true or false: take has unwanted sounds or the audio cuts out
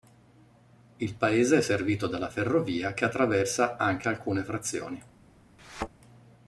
true